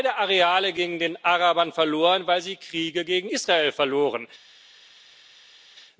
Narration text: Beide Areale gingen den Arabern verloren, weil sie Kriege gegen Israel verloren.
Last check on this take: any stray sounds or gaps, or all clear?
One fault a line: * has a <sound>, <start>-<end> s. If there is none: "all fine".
all fine